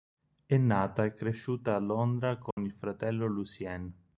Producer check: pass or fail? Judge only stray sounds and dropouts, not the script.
fail